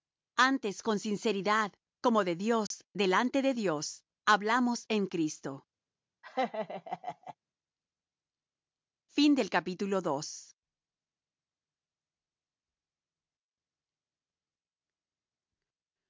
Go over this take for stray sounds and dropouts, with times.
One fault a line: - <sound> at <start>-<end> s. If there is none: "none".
- dropout at 2.7-2.7 s
- laugh at 6.2-7.4 s